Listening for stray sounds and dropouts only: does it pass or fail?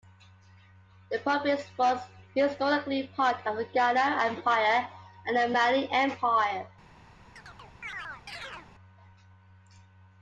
fail